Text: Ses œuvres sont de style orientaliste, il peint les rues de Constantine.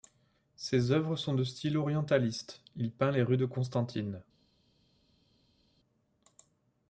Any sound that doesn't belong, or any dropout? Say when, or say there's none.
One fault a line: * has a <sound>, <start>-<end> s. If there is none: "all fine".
all fine